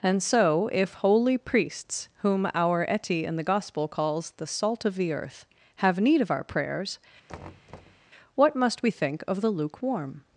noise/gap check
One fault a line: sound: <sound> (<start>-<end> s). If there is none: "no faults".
sound: thud (7.3-8.1 s)